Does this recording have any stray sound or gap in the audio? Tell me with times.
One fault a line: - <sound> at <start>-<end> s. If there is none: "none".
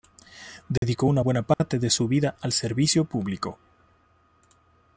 - dropout at 0.8-0.8 s
- dropout at 1.5-1.6 s